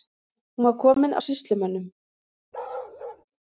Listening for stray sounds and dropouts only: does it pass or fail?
fail